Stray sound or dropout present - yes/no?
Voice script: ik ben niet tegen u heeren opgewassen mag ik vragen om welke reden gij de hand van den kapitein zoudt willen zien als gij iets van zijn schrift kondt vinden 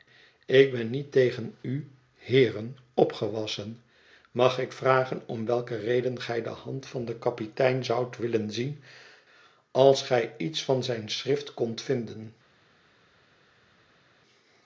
no